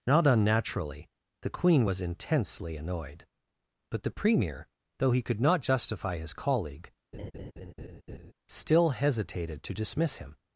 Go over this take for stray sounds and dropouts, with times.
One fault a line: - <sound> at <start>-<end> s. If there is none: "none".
- laugh at 7.1-8.3 s